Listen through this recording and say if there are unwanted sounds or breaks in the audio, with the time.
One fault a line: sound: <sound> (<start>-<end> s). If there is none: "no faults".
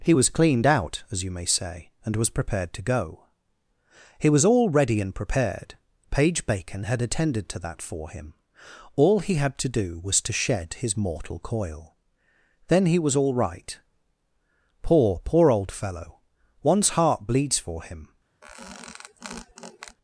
sound: squeak (18.4-20.0 s)